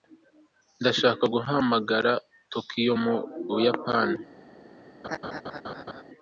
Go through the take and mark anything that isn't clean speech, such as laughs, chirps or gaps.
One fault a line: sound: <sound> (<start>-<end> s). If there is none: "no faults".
sound: laugh (5.0-6.0 s)